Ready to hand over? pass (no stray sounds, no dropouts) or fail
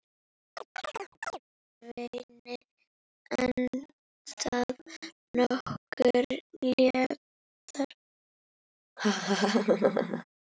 fail